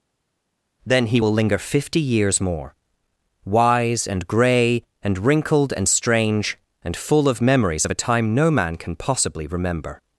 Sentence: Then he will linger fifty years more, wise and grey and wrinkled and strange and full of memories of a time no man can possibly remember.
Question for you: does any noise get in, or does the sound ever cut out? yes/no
no